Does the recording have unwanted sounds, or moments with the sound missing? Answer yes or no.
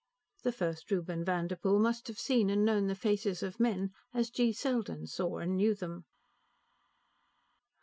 no